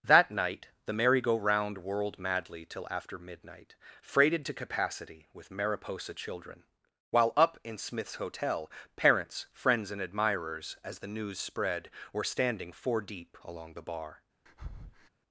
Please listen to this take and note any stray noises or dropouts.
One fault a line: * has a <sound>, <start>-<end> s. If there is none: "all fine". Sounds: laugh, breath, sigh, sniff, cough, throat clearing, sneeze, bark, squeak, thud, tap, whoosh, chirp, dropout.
* has a breath, 14.5-15.1 s